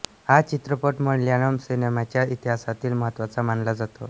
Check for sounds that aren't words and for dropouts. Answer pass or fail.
pass